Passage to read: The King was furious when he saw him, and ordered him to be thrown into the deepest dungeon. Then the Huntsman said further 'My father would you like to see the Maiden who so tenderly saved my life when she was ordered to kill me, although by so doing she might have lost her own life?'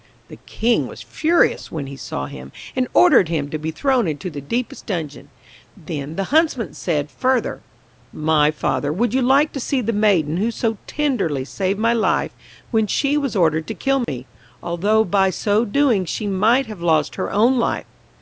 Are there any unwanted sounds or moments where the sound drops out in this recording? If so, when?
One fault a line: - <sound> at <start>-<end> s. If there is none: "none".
- dropout at 14.0-14.1 s